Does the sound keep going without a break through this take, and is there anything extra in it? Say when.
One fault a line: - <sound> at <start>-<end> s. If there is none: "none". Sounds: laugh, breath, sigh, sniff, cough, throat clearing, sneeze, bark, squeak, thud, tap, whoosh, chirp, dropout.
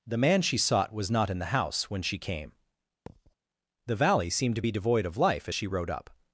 - thud at 3.1-3.3 s